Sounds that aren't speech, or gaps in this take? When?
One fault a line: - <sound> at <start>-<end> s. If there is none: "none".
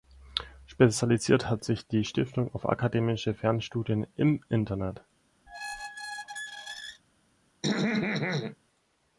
- squeak at 5.5-7.0 s
- throat clearing at 7.6-8.6 s